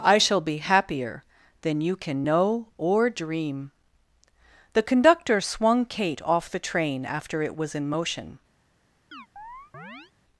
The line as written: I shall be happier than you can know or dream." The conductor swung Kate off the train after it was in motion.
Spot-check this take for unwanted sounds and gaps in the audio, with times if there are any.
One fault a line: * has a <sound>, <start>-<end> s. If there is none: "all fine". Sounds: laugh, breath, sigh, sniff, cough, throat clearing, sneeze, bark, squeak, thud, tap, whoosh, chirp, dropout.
* has a chirp, 9.1-10.1 s